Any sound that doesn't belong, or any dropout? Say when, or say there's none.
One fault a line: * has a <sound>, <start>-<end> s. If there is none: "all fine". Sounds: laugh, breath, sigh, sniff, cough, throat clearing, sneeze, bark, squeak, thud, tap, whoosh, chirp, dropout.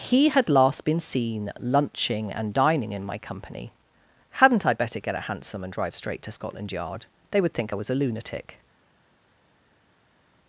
all fine